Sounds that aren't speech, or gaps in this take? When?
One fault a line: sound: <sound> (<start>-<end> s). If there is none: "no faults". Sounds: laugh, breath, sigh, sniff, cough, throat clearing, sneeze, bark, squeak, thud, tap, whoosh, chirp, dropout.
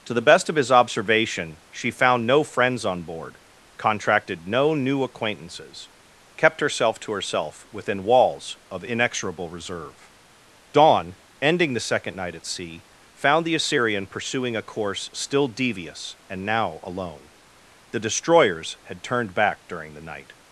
no faults